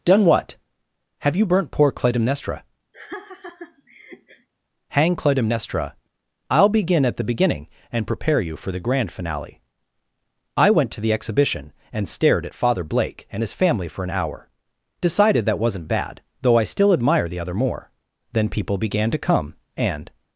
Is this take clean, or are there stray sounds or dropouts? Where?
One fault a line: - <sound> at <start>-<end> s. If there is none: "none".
- laugh at 2.9-4.5 s